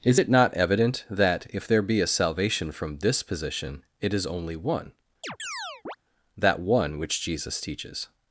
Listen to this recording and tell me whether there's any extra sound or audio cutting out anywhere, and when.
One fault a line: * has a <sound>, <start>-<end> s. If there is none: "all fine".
* has a chirp, 5.2-6.0 s